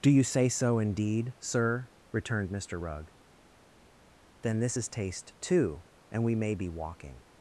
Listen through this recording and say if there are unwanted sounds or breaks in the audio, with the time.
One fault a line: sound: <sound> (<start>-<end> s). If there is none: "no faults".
no faults